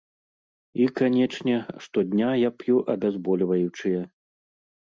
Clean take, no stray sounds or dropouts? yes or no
yes